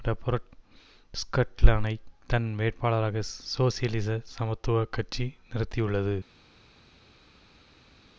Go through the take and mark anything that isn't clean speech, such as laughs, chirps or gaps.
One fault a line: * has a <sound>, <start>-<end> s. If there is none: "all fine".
all fine